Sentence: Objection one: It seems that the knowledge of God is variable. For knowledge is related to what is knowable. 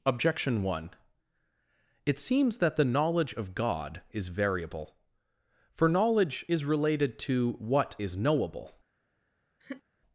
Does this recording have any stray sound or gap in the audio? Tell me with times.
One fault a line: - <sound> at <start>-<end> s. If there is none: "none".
- laugh at 9.6-9.8 s